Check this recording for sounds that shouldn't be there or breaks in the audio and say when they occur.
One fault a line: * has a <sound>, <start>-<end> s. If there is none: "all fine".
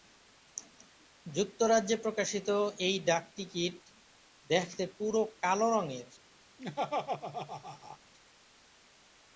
* has a laugh, 6.6-8.0 s